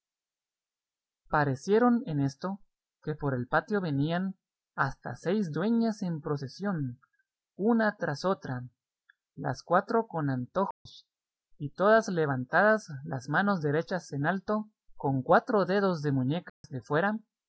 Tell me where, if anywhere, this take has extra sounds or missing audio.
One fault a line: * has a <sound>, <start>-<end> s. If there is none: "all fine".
* has a dropout, 10.7-10.9 s
* has a dropout, 16.5-16.6 s